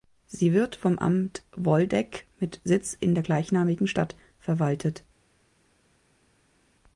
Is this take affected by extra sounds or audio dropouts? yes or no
no